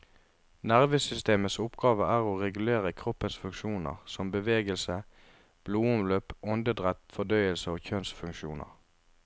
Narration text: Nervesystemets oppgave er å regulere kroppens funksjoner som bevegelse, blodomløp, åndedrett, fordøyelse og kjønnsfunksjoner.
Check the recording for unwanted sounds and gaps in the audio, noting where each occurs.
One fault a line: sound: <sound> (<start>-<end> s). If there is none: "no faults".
no faults